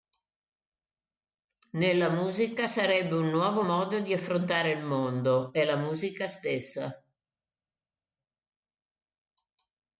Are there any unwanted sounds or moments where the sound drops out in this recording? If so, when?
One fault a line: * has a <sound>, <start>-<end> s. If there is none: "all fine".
all fine